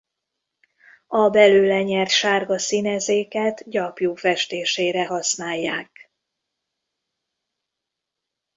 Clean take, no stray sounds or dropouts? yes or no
yes